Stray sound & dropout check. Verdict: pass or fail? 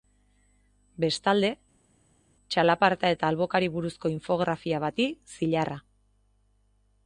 pass